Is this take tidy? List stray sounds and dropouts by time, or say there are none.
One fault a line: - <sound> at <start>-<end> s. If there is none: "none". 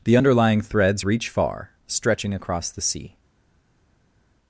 none